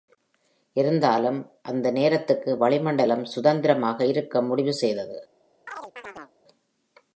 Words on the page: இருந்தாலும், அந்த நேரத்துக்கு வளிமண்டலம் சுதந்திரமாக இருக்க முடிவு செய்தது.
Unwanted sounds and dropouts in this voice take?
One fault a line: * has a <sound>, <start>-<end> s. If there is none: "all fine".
* has a chirp, 5.7-6.3 s